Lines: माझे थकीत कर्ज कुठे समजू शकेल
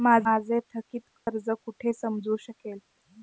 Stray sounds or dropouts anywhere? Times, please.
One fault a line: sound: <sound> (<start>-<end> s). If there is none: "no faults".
sound: dropout (1.2-1.3 s)